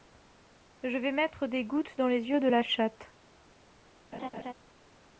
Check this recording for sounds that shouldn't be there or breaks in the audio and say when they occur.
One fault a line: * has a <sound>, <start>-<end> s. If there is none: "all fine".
* has a laugh, 4.1-4.5 s